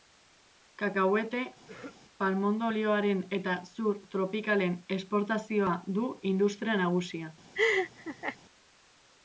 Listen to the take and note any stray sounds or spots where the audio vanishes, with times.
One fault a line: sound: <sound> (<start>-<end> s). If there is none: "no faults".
sound: throat clearing (1.7-2.0 s)
sound: laugh (7.5-8.4 s)